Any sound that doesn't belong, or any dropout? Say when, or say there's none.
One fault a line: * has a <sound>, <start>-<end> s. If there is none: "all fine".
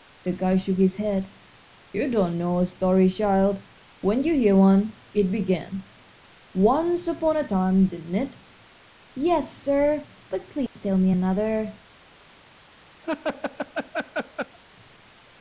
* has a dropout, 10.7-10.8 s
* has a laugh, 13.0-14.6 s